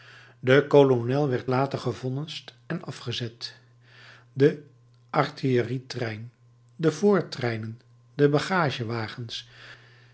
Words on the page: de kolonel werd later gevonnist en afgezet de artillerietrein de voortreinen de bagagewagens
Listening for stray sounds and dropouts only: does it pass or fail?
pass